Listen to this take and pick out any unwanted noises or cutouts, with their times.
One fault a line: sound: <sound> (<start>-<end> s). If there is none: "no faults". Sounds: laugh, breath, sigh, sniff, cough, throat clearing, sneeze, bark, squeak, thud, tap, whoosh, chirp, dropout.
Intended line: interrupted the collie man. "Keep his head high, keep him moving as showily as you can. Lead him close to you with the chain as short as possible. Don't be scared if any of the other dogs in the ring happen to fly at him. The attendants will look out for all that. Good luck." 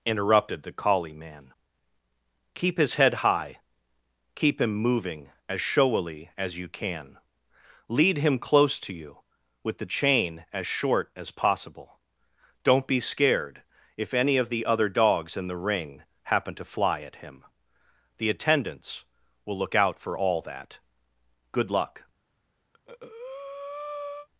sound: breath (22.7-24.3 s)